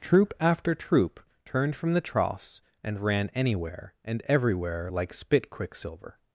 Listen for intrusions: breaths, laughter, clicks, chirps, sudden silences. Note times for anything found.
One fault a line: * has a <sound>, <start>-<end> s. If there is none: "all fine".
all fine